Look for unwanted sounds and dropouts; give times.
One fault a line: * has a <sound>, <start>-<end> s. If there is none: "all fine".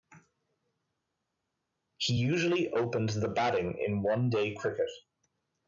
all fine